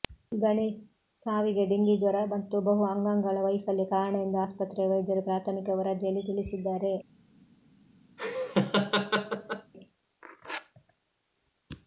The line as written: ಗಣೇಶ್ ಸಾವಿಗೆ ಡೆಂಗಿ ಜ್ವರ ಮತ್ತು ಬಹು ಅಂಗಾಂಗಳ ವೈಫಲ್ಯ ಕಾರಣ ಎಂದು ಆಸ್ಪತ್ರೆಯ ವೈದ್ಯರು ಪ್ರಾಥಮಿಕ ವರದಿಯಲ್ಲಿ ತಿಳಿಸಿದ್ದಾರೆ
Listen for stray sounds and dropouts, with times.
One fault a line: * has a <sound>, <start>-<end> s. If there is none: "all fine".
* has a laugh, 8.2-9.7 s